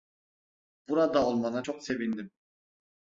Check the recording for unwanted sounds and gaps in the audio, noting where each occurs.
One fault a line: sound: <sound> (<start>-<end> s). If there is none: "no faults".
no faults